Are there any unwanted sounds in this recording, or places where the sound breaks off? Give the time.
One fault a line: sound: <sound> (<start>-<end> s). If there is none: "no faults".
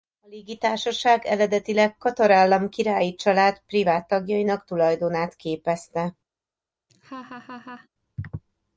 sound: laugh (6.9-7.9 s)